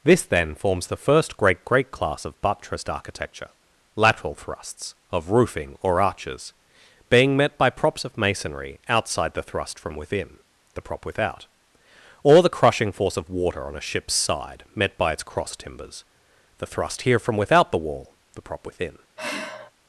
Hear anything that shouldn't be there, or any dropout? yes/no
yes